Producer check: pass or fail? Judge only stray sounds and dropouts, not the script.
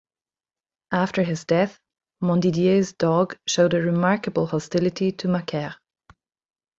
pass